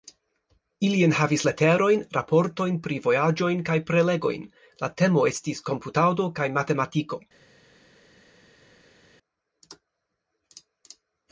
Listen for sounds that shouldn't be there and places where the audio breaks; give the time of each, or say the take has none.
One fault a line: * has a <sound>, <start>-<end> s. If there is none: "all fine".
all fine